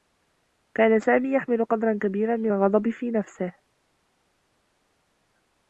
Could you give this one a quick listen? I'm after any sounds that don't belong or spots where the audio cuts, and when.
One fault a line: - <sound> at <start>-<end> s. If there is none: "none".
none